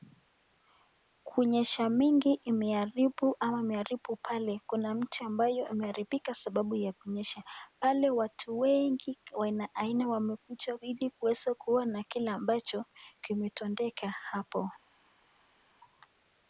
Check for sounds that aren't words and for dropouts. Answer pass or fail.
pass